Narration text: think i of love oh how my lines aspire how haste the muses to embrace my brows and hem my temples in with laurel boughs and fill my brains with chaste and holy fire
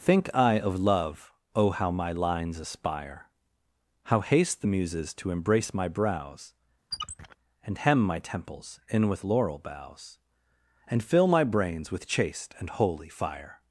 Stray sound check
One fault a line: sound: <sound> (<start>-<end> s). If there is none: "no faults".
sound: squeak (6.9-7.4 s)